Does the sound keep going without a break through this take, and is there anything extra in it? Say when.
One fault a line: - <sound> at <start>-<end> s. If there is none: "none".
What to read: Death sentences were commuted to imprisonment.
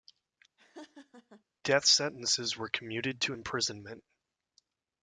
- laugh at 0.6-1.4 s